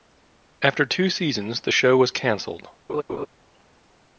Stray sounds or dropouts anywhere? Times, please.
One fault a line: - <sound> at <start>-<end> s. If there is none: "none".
- laugh at 2.9-3.3 s